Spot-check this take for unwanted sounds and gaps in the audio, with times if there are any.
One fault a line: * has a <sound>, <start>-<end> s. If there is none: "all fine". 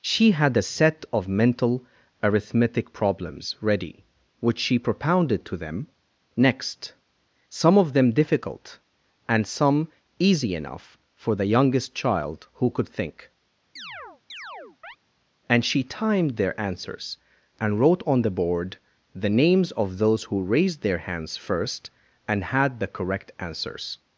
* has a chirp, 13.8-15.0 s